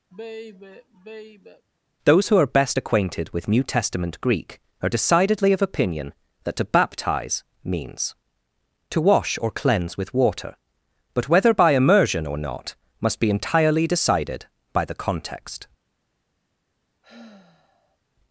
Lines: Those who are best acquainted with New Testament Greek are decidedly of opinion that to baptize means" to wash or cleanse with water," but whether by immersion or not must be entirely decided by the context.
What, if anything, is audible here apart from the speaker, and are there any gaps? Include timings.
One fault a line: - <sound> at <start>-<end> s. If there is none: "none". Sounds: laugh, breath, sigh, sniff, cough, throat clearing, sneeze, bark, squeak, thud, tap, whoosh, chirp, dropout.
- sigh at 0.1-1.7 s
- sigh at 17.0-18.0 s